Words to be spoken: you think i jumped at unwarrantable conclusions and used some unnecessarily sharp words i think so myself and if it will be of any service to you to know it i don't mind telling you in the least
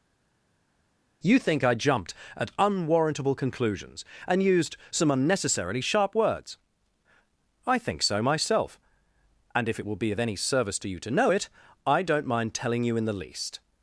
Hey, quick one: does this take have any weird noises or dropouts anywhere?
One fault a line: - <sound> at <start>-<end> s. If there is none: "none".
none